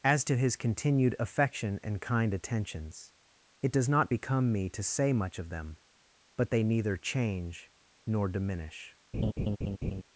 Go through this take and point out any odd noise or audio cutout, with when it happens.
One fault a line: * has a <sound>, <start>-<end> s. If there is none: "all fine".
* has a laugh, 9.1-10.0 s